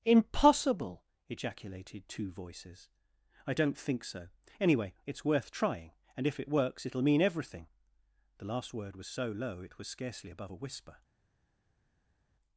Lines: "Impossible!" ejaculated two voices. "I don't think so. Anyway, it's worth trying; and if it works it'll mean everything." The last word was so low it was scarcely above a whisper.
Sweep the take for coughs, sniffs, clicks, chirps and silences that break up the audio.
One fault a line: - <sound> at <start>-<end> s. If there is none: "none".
none